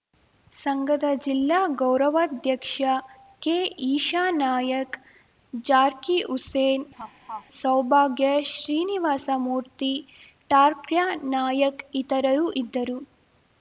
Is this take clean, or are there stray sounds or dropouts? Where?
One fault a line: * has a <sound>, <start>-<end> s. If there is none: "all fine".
* has a laugh, 6.9-7.5 s